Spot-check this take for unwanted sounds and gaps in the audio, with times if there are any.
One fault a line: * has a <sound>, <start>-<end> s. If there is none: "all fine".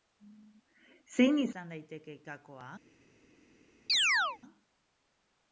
* has a chirp, 3.9-4.4 s